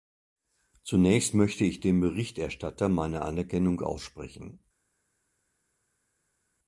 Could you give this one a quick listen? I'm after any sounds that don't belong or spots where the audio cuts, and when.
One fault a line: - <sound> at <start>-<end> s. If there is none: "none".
none